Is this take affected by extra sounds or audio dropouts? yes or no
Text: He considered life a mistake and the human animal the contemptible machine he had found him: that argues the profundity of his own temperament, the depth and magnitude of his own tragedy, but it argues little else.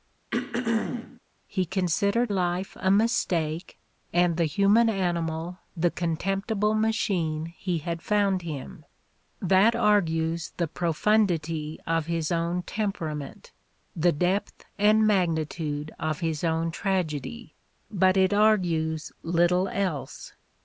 yes